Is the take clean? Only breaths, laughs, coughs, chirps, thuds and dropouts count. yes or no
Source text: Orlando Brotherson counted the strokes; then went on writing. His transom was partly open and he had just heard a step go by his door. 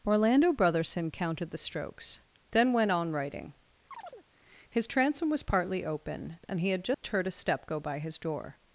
no